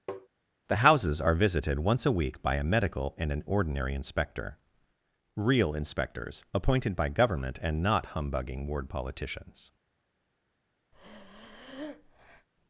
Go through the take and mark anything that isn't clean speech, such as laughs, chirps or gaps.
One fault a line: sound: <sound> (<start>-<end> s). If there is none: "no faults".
sound: tap (0.1-0.3 s)
sound: breath (10.9-12.5 s)